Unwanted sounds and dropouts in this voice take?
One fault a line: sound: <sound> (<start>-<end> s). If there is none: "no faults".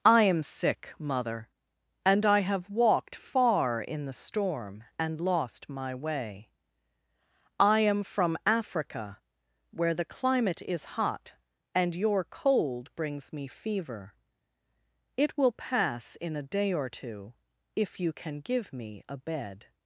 no faults